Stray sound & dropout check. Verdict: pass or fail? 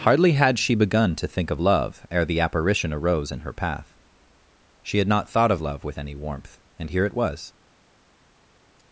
pass